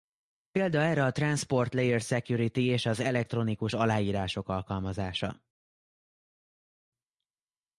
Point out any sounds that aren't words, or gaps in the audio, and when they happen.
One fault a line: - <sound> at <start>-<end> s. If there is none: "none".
none